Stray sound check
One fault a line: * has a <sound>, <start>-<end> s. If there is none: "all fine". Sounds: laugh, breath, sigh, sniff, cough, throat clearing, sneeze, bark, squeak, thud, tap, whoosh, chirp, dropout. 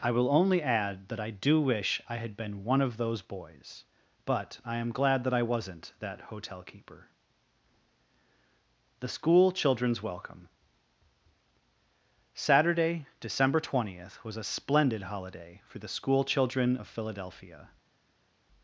all fine